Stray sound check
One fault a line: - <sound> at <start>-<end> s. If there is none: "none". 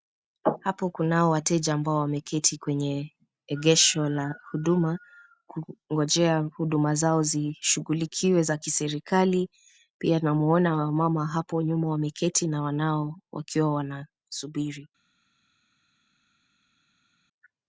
none